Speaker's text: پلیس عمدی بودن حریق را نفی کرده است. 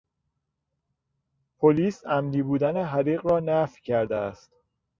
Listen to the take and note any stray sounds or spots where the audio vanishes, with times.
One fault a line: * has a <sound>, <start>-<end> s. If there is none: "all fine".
all fine